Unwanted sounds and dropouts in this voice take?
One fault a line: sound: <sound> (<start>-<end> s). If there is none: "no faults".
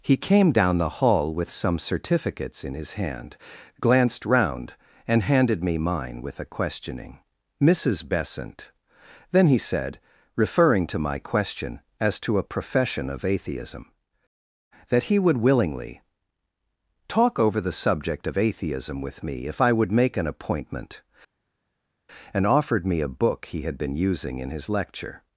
no faults